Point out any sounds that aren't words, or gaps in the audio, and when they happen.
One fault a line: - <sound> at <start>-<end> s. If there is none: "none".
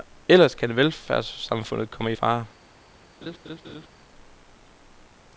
- laugh at 3.2-3.9 s